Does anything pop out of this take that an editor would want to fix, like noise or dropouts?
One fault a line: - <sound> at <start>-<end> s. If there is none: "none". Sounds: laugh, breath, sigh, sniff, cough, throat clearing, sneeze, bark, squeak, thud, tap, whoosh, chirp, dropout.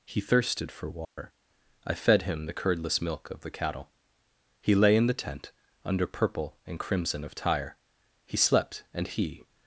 - dropout at 1.0-1.2 s